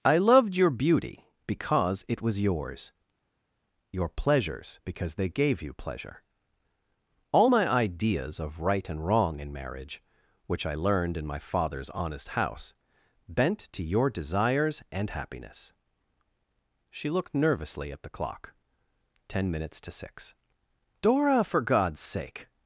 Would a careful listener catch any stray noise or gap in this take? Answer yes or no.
no